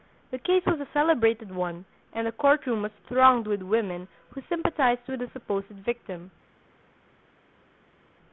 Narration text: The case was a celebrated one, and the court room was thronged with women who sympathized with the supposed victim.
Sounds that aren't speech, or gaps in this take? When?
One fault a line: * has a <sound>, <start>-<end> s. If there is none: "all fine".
all fine